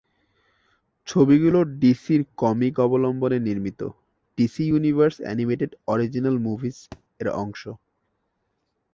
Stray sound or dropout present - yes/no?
yes